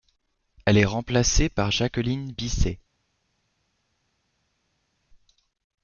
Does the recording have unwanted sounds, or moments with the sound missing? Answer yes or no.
no